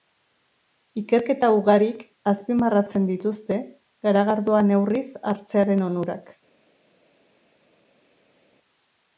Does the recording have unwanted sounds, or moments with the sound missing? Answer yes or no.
no